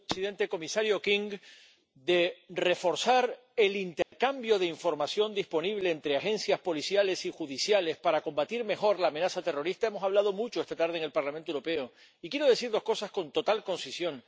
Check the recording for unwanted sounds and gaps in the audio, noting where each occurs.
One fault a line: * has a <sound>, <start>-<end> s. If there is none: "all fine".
* has a dropout, 4.0-4.1 s